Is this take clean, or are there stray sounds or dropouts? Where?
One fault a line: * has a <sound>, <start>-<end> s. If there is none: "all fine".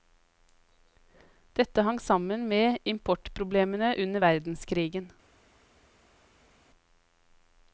all fine